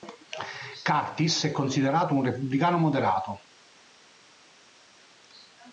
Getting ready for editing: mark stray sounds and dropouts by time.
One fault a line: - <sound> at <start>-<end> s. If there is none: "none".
none